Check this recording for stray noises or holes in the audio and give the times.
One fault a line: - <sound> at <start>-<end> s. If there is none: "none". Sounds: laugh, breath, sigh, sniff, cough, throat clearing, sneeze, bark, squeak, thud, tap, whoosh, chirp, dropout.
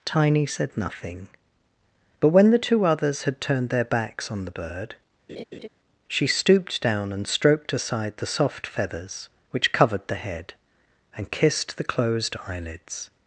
- laugh at 5.3-5.7 s